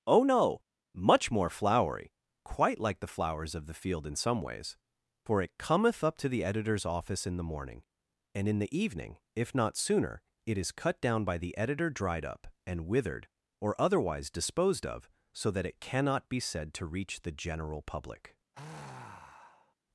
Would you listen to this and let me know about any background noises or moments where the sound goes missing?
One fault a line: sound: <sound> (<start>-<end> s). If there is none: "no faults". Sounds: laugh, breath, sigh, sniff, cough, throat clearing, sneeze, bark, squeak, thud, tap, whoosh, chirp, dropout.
sound: sigh (18.5-19.8 s)